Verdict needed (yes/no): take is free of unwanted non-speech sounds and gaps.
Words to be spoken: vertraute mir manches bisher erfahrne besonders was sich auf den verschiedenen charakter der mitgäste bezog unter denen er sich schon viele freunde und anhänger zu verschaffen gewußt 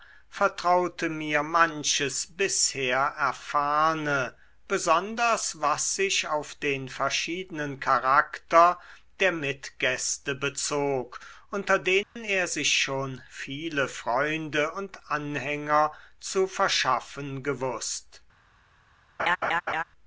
no